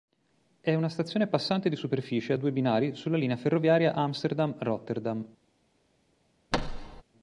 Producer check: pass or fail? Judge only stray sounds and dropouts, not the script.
fail